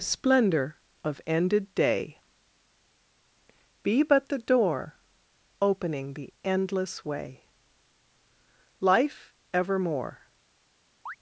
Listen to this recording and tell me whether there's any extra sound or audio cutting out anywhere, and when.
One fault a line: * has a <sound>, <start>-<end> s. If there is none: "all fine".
* has a chirp, 11.1-11.2 s